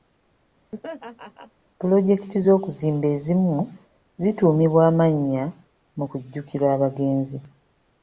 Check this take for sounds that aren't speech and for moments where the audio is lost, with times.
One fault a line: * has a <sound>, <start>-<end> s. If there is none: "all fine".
* has a laugh, 0.7-1.5 s